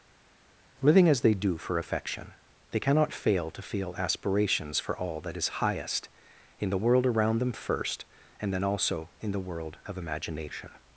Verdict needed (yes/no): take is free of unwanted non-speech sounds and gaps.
yes